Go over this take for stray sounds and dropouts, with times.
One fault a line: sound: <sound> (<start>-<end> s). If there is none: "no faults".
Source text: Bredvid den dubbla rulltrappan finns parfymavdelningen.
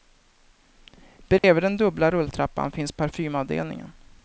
sound: dropout (1.4-1.4 s)